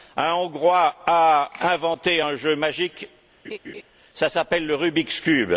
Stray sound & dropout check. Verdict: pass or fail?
fail